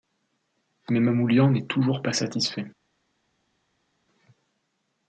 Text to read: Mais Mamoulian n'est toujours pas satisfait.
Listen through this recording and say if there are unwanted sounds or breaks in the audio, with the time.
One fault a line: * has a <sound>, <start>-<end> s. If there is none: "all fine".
all fine